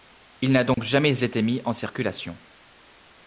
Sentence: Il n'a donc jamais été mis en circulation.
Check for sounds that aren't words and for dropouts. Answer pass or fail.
fail